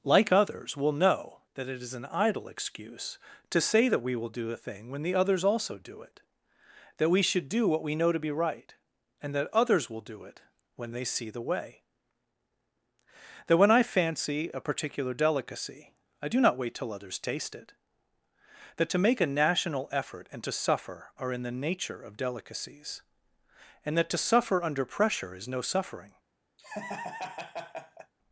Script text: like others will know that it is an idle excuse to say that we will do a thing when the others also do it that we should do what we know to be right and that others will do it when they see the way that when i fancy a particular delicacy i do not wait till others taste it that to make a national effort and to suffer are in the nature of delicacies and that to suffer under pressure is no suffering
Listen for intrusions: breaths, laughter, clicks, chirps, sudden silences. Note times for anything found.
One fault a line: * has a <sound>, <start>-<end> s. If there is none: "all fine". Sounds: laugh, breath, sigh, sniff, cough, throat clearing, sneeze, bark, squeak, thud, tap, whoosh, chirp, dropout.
* has a laugh, 26.6-28.1 s